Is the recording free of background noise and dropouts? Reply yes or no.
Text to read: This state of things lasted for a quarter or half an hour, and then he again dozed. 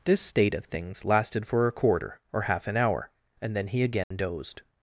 no